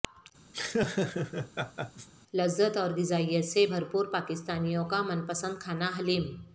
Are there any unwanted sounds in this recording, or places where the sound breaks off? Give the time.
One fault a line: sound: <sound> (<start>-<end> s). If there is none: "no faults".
sound: laugh (0.5-2.1 s)